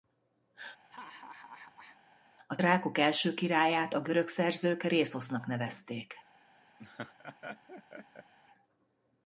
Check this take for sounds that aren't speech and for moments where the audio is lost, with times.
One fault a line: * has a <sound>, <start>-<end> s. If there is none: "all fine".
* has a laugh, 0.9-2.0 s
* has a laugh, 6.8-8.3 s